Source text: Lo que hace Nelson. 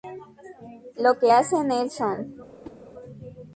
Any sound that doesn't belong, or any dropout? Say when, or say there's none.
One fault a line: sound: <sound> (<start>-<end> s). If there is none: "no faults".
sound: whoosh (2.6-2.8 s)